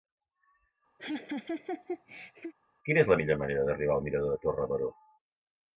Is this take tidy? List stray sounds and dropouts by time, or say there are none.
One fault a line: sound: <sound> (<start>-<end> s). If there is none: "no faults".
sound: laugh (1.0-2.5 s)